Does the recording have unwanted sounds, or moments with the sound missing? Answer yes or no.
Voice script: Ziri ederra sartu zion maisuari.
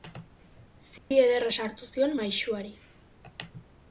yes